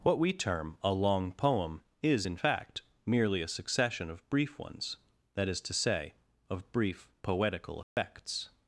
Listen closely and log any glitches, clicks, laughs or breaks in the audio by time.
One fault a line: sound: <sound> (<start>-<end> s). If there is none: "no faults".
sound: dropout (7.8-8.0 s)